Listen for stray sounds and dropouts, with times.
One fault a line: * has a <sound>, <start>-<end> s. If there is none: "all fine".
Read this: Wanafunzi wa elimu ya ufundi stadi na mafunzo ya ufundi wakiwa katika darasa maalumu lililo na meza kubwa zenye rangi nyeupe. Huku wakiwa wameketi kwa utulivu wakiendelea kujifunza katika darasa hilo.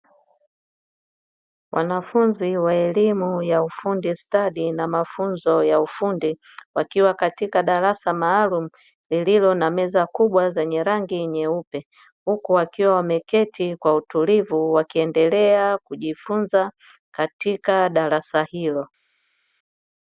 all fine